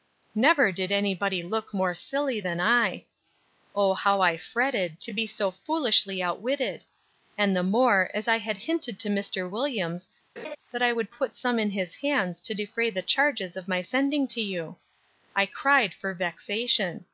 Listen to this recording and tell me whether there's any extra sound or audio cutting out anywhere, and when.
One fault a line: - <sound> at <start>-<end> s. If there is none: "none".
- laugh at 10.4-10.6 s